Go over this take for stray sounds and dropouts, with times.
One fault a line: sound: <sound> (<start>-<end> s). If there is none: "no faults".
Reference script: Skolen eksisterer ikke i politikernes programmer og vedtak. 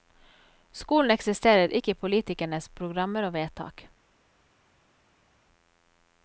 no faults